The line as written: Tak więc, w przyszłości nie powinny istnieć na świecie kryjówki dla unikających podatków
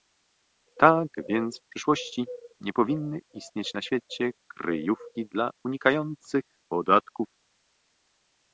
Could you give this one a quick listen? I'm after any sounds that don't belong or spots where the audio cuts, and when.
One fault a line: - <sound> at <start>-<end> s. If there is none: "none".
none